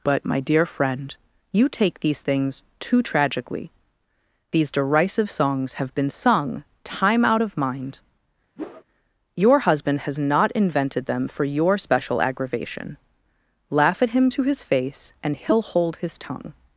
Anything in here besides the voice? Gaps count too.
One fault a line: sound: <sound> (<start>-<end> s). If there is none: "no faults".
sound: whoosh (8.6-8.8 s)